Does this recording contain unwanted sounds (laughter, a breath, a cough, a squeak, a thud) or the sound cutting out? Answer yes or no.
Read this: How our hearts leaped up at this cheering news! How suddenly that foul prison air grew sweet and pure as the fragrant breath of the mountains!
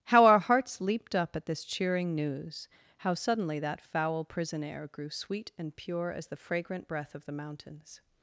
no